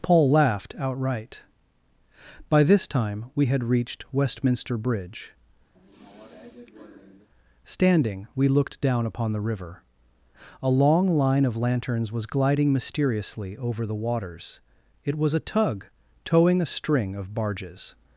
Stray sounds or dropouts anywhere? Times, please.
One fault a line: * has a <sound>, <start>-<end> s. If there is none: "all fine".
* has a sigh, 5.8-7.3 s